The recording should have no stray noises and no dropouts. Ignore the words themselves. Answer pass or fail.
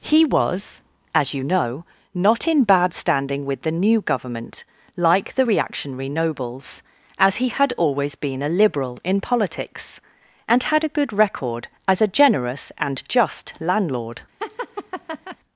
fail